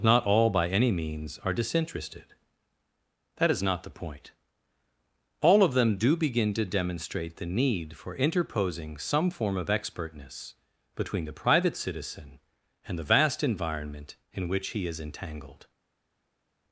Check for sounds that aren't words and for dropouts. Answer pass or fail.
pass